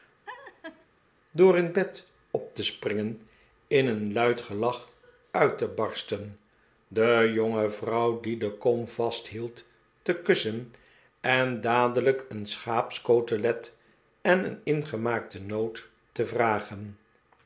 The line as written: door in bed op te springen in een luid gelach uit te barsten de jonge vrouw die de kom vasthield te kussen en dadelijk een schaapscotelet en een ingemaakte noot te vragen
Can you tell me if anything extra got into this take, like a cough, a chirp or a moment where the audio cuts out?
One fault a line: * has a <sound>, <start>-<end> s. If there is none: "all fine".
* has a laugh, 0.3-0.9 s